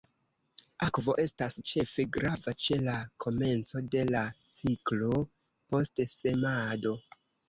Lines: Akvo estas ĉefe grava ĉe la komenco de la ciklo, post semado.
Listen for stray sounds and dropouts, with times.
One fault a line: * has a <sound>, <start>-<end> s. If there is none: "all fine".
all fine